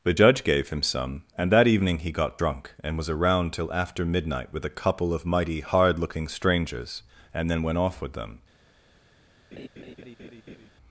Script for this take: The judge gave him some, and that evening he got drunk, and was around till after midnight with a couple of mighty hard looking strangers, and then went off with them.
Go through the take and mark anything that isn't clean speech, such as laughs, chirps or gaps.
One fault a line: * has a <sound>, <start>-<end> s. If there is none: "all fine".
* has a laugh, 9.5-10.7 s